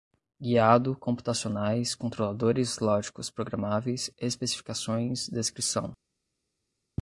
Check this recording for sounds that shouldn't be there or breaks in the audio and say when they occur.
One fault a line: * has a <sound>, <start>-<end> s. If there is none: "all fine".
all fine